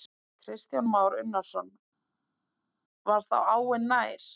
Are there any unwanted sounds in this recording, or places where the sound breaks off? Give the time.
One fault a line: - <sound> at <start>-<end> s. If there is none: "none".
none